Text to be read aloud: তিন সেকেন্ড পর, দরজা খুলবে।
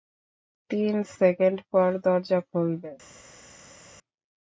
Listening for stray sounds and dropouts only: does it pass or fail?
pass